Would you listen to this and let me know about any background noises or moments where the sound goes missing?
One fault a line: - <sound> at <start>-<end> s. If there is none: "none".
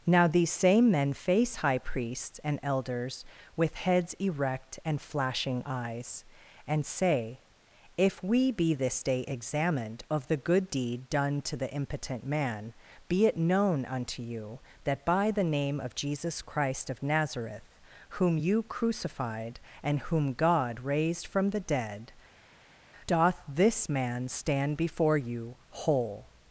none